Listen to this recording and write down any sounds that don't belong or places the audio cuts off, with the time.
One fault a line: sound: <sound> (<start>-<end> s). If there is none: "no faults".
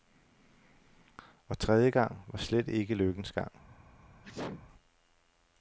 sound: sneeze (4.2-4.7 s)